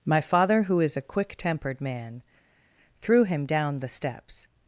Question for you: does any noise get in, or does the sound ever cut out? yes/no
no